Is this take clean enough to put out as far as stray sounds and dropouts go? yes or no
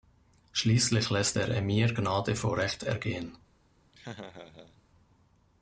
no